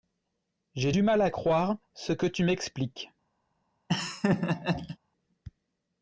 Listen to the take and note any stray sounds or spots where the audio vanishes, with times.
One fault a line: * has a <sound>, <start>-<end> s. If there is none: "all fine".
* has a laugh, 3.9-5.0 s